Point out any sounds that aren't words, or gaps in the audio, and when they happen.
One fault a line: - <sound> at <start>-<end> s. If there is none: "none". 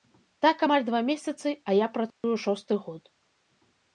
- dropout at 2.1-2.2 s